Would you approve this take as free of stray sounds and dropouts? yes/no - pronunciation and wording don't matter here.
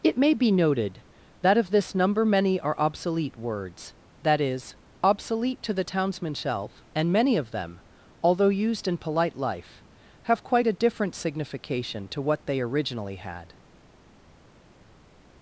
yes